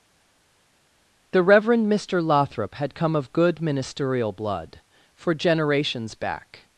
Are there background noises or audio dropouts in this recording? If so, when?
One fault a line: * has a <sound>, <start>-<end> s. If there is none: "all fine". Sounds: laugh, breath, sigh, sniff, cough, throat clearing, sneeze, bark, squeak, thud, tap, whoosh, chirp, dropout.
all fine